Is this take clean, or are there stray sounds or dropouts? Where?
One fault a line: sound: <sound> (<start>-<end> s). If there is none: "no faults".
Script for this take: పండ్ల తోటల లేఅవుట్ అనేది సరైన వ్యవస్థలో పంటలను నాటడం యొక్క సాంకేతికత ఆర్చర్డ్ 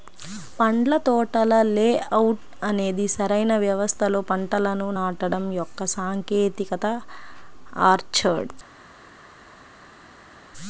no faults